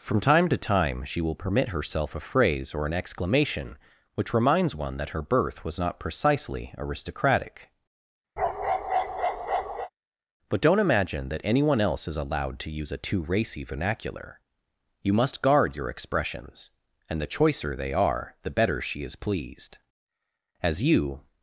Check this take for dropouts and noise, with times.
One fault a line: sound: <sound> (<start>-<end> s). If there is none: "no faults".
sound: bark (8.4-9.9 s)